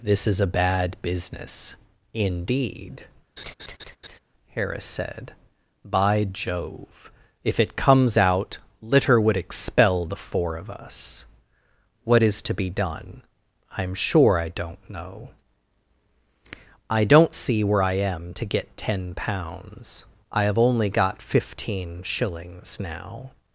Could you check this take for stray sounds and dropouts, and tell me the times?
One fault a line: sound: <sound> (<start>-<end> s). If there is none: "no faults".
sound: laugh (3.4-4.2 s)